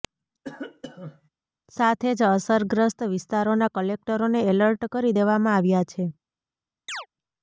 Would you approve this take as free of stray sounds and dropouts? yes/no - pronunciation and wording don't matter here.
no